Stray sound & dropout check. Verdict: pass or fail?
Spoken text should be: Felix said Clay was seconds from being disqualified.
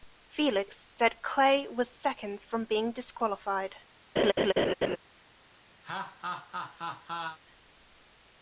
fail